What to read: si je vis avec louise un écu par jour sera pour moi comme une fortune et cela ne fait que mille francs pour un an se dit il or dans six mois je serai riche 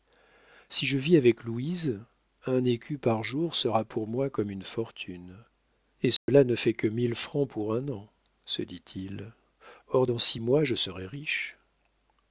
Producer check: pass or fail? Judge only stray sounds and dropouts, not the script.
fail